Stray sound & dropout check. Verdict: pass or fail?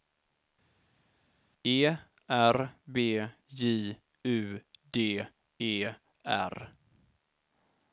pass